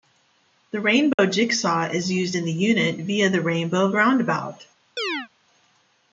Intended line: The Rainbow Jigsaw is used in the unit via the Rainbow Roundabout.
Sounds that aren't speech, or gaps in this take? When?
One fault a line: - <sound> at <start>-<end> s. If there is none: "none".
- dropout at 1.1-1.2 s
- chirp at 5.0-5.3 s